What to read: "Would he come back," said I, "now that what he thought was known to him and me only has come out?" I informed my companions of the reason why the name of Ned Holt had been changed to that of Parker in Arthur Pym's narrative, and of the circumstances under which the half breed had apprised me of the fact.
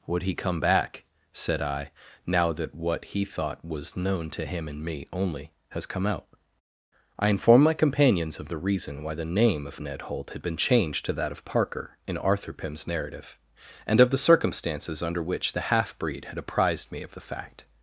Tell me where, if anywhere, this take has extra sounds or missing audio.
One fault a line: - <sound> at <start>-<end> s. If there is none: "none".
none